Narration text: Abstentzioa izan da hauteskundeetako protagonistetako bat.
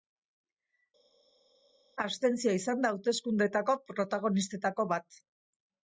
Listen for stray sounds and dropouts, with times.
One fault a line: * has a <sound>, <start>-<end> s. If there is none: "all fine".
all fine